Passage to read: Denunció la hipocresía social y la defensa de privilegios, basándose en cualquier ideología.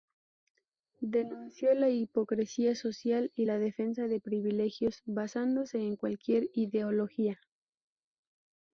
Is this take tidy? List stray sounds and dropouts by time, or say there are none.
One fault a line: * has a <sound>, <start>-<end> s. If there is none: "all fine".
all fine